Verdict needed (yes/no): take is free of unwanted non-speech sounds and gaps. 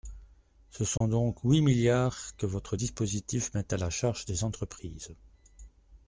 no